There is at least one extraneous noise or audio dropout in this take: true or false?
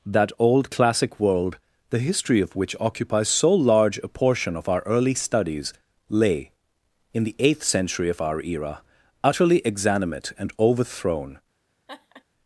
true